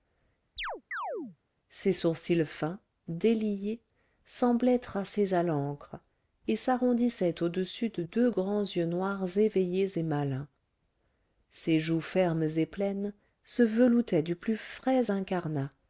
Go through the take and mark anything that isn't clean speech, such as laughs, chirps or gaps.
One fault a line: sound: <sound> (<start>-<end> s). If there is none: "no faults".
sound: chirp (0.6-1.4 s)